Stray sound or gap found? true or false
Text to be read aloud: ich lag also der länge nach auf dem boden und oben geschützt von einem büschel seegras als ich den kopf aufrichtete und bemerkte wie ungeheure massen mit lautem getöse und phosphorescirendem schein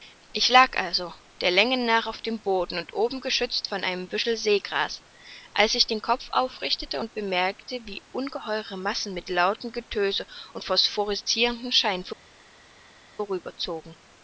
false